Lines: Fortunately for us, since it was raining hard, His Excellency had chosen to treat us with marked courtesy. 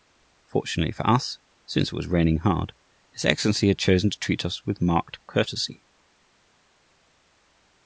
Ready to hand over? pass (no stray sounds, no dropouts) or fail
pass